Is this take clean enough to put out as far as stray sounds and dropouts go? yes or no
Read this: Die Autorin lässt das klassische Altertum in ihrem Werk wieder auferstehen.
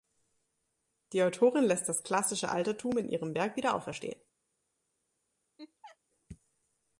no